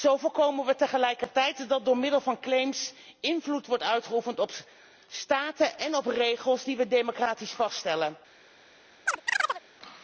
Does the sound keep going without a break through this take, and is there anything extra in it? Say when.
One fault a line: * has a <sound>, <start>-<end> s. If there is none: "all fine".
* has a chirp, 9.1-9.6 s